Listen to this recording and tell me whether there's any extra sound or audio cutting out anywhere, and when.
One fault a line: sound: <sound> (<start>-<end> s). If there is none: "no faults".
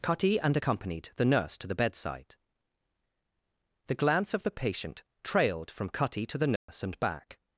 sound: dropout (6.6-6.7 s)